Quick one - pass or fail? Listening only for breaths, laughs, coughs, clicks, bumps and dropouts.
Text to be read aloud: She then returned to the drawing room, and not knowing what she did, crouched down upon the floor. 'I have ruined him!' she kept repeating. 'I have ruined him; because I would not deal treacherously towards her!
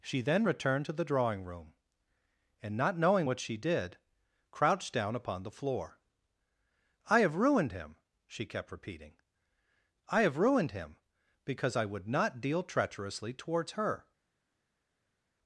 pass